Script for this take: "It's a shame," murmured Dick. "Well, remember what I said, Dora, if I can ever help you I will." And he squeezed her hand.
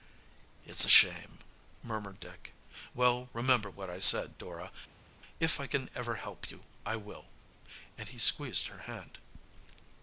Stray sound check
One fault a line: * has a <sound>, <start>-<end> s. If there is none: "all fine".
all fine